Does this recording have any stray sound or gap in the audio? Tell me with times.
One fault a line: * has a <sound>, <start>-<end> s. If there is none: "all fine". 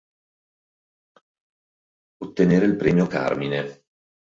all fine